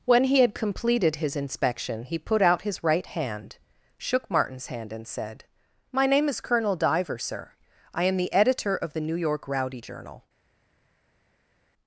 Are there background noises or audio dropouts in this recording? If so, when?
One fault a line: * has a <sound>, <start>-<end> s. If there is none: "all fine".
all fine